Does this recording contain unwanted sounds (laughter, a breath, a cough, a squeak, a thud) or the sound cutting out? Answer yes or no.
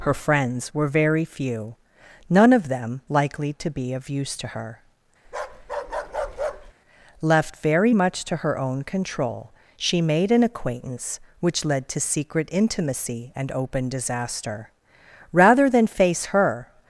yes